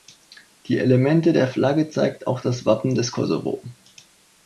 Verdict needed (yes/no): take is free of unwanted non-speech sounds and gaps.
yes